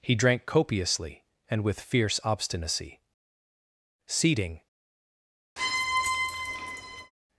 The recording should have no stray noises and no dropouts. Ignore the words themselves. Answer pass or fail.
fail